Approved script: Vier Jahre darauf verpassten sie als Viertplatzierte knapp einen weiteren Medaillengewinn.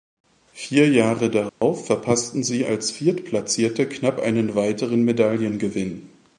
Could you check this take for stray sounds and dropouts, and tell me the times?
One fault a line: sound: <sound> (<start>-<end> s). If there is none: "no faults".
sound: dropout (1.5-1.6 s)